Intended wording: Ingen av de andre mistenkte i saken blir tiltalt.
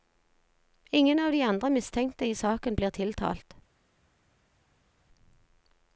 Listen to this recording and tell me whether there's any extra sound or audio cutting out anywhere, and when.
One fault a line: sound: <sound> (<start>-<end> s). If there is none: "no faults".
no faults